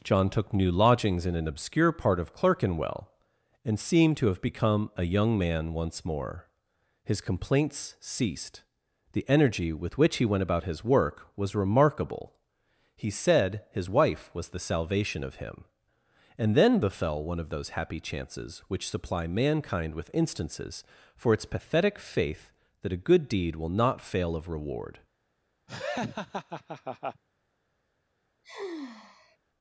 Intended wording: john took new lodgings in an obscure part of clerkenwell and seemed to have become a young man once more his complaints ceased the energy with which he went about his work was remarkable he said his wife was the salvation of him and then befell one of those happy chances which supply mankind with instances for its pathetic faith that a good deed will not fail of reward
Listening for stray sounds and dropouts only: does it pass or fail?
fail